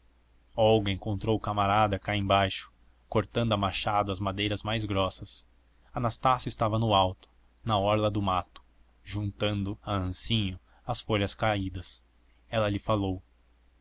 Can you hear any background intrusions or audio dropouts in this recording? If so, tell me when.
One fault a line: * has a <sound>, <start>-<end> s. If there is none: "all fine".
all fine